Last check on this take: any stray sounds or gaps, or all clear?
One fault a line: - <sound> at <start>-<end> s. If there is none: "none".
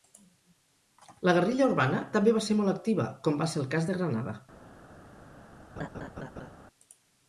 - laugh at 5.8-6.5 s